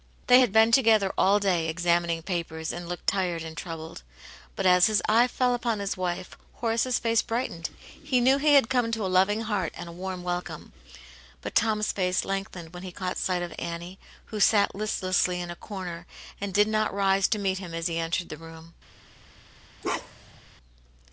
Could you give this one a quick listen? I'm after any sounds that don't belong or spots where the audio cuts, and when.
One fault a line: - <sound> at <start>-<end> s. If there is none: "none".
- bark at 19.8-20.4 s